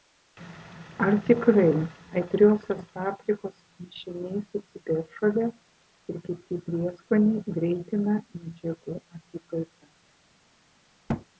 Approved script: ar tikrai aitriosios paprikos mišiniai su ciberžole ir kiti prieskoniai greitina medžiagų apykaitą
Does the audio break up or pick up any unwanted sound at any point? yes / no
yes